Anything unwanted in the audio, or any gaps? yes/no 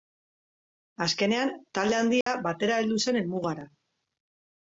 yes